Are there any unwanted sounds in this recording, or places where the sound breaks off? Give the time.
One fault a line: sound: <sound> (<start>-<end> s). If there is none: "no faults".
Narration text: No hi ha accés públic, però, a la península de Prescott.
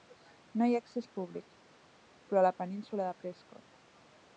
no faults